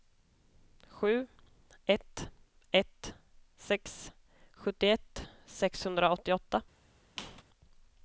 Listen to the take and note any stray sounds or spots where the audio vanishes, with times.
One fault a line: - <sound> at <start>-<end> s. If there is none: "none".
- squeak at 7.2-7.4 s